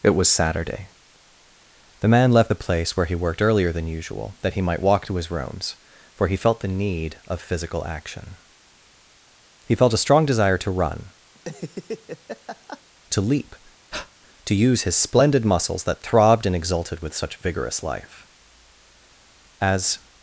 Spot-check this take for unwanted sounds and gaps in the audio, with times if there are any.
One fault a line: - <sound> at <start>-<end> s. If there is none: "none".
- laugh at 11.3-12.8 s
- breath at 13.9-14.1 s